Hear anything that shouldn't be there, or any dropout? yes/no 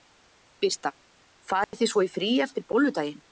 yes